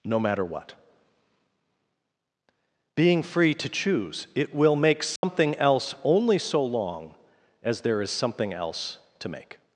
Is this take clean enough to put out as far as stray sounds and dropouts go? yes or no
no